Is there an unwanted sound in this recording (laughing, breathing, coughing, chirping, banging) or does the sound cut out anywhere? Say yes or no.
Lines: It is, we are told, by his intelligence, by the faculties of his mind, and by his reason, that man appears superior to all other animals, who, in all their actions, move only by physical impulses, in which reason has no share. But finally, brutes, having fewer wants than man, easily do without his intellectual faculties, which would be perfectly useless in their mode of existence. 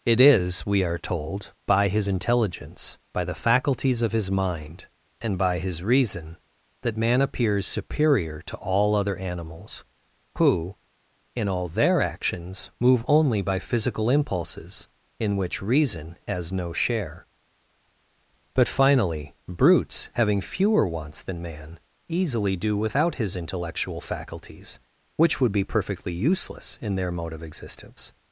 no